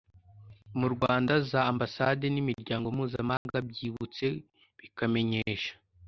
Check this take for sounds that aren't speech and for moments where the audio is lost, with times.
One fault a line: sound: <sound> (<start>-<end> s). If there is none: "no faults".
sound: dropout (3.4-3.5 s)